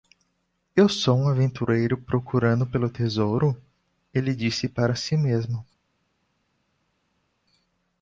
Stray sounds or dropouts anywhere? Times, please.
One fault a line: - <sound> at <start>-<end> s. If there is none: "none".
none